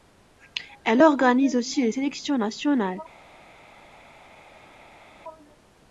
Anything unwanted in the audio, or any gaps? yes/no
no